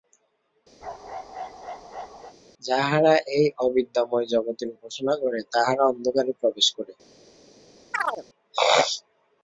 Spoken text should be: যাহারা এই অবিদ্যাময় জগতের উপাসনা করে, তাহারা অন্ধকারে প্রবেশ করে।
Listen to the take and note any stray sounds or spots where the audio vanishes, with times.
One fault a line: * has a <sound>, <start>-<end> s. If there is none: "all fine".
* has a bark, 0.8-2.3 s
* has a chirp, 7.9-8.2 s